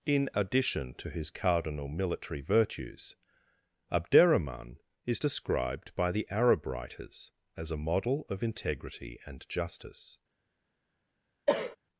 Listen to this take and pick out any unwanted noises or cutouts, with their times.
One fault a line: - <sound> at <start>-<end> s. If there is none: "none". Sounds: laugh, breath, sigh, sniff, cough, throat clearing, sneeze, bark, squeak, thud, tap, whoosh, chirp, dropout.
- cough at 11.5-11.8 s